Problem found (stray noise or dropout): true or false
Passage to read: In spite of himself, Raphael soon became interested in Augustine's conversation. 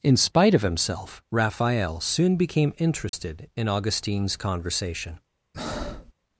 true